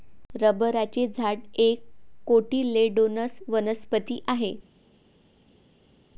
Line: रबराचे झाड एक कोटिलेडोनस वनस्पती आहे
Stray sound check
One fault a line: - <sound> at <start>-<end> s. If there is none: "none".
none